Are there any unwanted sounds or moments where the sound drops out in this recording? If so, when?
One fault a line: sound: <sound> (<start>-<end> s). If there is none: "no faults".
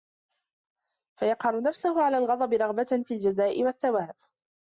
no faults